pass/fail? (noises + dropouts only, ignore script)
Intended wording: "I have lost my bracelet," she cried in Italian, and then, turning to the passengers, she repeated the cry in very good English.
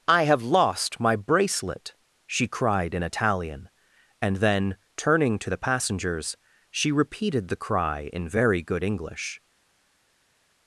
pass